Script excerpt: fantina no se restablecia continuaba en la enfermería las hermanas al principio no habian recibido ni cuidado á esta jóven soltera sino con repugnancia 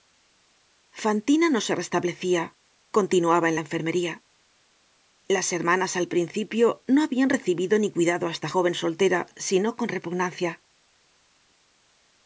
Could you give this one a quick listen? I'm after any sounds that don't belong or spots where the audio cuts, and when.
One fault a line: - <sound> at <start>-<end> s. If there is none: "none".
none